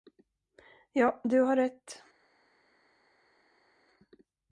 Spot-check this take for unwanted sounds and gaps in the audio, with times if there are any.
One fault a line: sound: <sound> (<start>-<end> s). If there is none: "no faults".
no faults